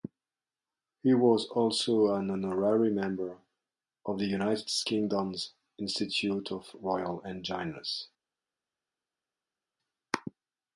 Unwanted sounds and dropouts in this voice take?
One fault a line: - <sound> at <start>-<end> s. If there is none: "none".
none